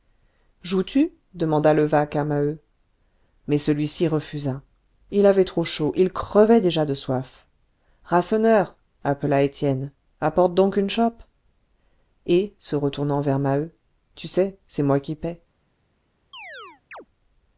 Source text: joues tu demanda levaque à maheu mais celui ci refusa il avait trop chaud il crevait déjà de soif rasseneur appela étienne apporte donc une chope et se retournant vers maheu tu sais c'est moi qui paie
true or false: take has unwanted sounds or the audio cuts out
true